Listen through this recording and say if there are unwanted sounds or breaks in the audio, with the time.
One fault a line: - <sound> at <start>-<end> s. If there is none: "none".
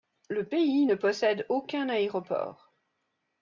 none